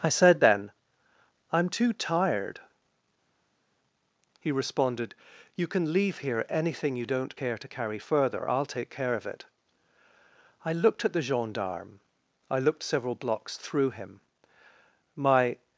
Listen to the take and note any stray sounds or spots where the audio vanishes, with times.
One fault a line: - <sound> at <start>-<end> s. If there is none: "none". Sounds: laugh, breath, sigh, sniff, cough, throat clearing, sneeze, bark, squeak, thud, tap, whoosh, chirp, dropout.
none